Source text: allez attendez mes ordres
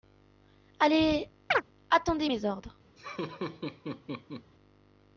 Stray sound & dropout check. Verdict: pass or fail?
fail